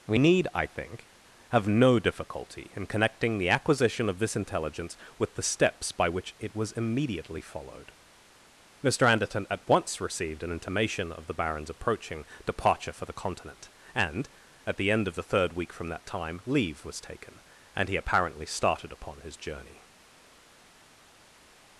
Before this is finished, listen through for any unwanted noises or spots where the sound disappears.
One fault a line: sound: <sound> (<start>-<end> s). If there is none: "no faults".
no faults